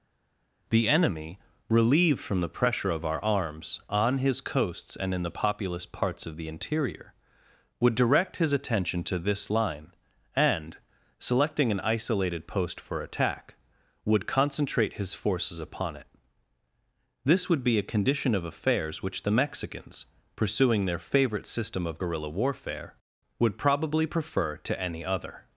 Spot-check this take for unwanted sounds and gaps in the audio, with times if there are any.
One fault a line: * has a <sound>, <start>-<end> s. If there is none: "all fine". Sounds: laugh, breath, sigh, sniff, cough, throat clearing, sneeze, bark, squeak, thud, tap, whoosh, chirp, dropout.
all fine